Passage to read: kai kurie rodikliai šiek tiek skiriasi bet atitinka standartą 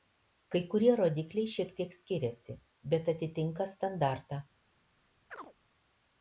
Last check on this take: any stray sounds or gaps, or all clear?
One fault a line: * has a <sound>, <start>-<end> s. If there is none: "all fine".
* has a chirp, 5.3-5.5 s